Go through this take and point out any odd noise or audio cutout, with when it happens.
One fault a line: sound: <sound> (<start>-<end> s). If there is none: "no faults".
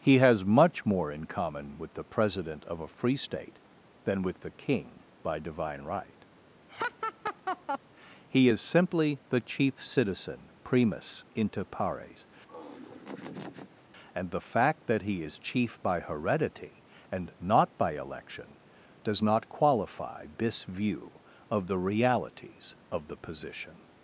sound: laugh (6.7-7.8 s)
sound: laugh (12.5-13.8 s)